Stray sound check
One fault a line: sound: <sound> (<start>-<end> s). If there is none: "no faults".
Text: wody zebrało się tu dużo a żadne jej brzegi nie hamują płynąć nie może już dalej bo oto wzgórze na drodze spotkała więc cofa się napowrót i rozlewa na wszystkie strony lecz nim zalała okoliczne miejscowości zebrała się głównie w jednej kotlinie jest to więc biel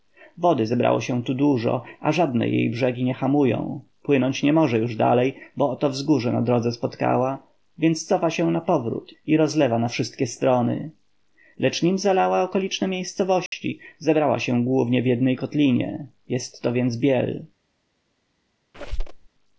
sound: dropout (13.5-13.5 s)
sound: squeak (18.7-19.3 s)